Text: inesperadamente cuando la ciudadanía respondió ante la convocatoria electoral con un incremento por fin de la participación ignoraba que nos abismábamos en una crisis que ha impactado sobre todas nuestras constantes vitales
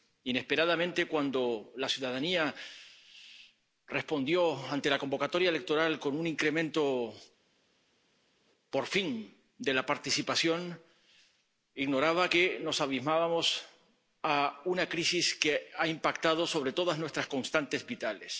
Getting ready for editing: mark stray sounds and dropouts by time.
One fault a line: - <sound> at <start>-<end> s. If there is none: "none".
none